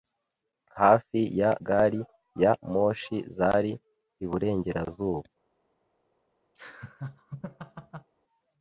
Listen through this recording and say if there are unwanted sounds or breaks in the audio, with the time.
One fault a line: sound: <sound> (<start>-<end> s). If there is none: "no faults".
sound: laugh (6.6-8.1 s)